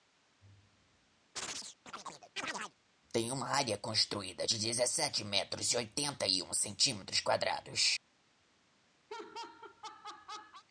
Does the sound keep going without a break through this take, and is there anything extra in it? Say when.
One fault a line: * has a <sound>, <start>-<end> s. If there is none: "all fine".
* has a chirp, 1.4-2.7 s
* has a laugh, 9.1-10.6 s